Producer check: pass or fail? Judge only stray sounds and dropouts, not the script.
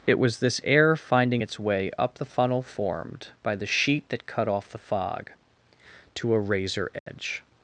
fail